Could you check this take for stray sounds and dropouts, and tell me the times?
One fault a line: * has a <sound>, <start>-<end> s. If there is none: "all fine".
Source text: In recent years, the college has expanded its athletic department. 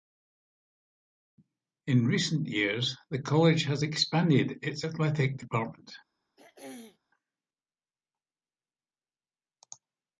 * has a throat clearing, 6.4-7.0 s